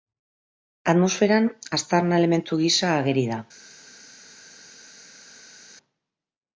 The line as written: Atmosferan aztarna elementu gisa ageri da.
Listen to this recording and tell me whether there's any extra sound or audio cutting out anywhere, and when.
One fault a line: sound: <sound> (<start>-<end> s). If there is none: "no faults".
no faults